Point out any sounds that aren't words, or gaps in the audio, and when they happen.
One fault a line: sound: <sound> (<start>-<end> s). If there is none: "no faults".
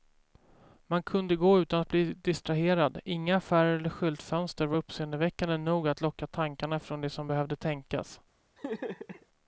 sound: laugh (8.6-9.3 s)